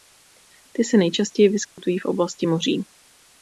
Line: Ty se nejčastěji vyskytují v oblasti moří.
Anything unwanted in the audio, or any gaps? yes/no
yes